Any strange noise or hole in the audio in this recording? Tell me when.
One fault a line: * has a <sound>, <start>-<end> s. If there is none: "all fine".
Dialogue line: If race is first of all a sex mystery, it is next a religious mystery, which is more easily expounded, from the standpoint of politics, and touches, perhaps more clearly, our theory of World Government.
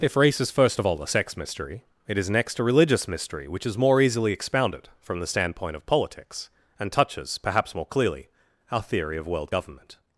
all fine